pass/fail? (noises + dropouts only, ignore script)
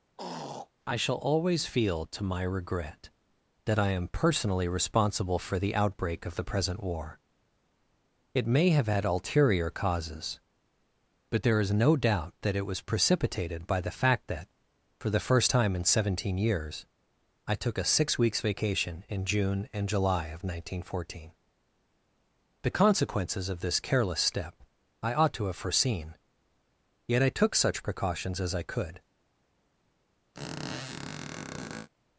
fail